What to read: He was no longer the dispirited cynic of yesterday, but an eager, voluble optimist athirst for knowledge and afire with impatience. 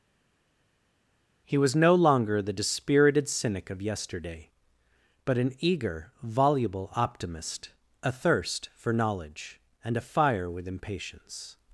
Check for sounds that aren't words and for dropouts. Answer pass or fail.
pass